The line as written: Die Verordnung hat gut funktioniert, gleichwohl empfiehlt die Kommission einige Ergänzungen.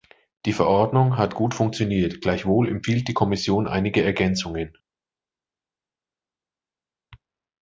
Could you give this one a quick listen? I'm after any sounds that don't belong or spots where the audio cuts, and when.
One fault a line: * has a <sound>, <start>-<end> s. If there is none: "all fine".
all fine